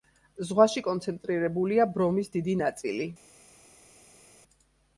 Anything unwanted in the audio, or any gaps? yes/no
no